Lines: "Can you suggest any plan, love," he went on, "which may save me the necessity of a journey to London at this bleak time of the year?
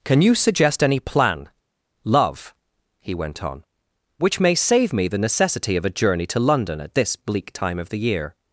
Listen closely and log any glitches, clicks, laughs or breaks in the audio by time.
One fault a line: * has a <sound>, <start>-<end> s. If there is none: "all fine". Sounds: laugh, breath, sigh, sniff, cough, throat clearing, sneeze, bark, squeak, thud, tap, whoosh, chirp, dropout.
all fine